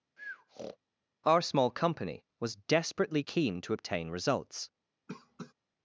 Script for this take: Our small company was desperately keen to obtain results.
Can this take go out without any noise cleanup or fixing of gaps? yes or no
no